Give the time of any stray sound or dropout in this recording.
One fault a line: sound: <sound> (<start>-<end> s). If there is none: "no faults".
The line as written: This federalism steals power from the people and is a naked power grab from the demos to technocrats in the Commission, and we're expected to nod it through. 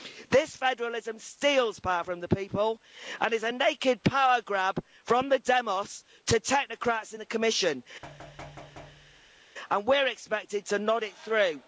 sound: thud (8.0-9.4 s)